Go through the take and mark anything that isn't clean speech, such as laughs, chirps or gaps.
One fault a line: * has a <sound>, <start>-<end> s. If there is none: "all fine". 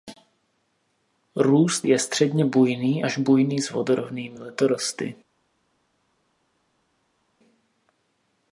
all fine